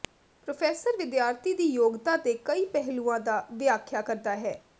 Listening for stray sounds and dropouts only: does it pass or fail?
pass